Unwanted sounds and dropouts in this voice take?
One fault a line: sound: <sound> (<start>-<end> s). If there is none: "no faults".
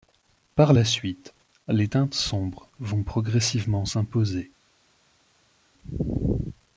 no faults